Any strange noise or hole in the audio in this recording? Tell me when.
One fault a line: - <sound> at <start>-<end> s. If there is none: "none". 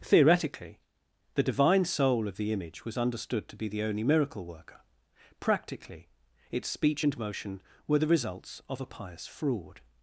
none